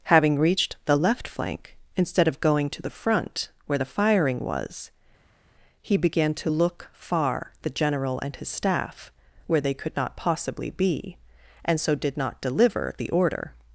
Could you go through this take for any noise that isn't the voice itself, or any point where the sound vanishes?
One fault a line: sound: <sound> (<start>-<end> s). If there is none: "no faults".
no faults